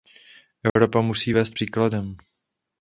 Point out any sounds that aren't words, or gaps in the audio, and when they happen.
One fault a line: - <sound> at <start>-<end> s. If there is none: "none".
- dropout at 0.7-0.8 s